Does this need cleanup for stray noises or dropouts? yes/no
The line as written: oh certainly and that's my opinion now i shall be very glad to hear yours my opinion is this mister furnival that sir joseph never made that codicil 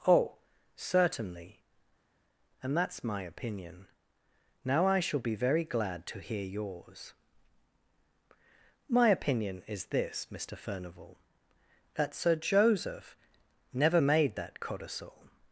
no